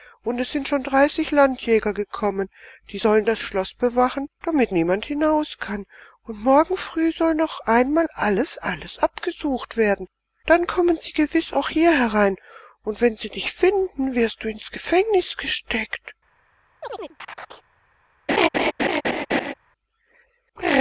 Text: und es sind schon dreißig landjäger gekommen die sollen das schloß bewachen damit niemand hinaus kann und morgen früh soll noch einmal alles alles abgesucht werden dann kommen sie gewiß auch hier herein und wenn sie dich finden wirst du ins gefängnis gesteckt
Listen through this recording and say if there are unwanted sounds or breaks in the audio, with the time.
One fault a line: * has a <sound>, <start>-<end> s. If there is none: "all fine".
* has a chirp, 16.8-17.6 s
* has a laugh, 18.3-19.5 s